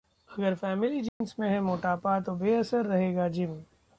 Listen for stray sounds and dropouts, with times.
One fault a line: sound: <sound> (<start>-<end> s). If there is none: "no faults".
sound: dropout (1.1-1.2 s)